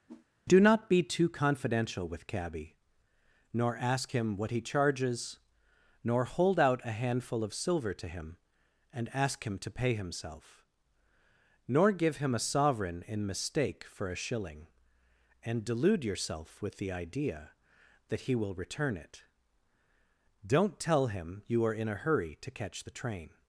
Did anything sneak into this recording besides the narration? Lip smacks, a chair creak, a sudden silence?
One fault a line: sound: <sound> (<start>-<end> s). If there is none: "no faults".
sound: whoosh (0.1-0.3 s)